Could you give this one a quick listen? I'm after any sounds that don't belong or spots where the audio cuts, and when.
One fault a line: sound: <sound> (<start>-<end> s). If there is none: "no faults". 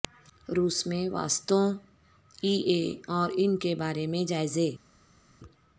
no faults